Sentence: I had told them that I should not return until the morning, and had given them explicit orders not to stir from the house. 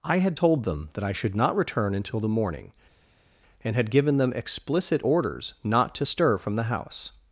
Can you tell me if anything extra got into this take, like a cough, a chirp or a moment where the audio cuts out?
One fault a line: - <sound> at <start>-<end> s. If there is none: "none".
none